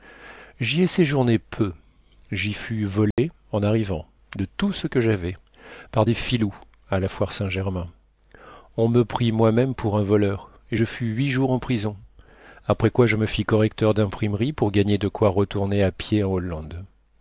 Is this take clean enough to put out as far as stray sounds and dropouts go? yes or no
no